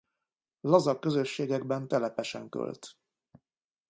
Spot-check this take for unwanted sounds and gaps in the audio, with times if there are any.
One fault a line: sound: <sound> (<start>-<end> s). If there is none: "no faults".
no faults